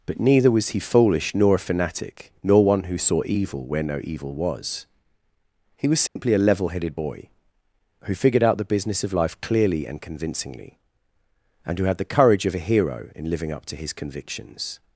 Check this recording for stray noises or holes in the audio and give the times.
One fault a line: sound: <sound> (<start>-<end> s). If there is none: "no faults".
sound: dropout (6.1-6.2 s)